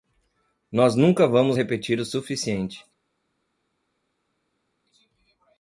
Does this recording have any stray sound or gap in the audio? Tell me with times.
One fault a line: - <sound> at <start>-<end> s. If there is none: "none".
none